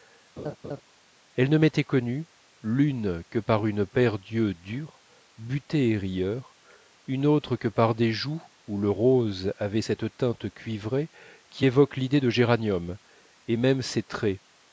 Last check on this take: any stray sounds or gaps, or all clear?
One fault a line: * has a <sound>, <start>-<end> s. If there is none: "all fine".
* has a laugh, 0.4-0.8 s